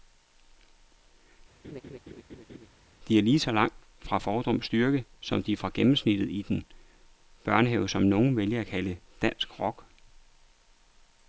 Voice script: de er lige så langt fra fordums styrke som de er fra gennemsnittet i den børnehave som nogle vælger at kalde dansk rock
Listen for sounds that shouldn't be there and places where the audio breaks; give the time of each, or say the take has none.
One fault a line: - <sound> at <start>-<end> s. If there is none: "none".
- laugh at 1.6-2.7 s